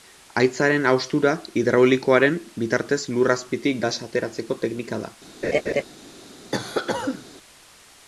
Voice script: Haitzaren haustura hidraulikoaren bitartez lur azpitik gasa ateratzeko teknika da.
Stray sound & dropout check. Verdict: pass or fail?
fail